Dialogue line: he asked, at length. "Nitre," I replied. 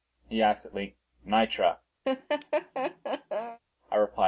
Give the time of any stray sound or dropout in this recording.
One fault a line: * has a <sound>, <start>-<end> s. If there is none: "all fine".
* has a laugh, 2.0-3.6 s